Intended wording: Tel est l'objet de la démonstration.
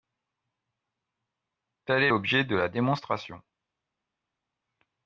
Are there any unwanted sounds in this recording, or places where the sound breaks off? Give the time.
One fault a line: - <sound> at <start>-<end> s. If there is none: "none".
none